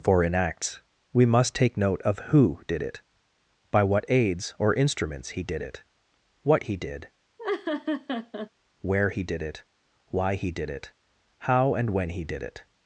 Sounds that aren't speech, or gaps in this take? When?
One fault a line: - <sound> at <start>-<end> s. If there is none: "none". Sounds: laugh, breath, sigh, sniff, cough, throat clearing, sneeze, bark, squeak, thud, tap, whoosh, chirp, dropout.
- laugh at 7.4-8.5 s